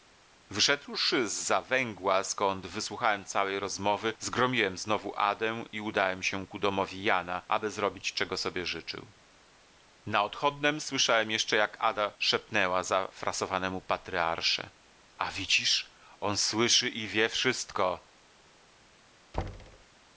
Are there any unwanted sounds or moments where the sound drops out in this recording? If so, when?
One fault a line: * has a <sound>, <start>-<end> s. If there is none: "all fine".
* has a thud, 19.3-19.8 s